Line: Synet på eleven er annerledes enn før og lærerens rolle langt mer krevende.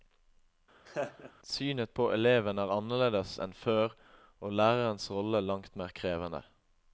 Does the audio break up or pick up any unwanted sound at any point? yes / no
yes